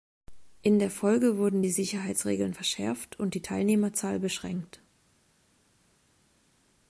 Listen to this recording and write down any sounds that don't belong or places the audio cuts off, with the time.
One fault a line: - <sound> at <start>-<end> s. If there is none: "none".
none